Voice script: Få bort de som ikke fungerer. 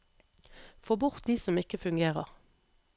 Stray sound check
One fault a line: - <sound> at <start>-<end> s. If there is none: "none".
none